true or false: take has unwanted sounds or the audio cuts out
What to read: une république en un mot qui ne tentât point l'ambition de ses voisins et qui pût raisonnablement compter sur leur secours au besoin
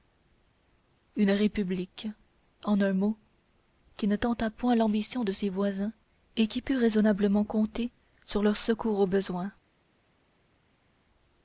false